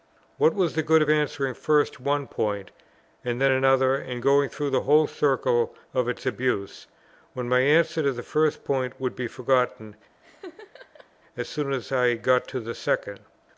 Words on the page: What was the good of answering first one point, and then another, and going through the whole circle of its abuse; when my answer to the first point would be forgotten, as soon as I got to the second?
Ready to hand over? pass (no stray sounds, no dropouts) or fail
fail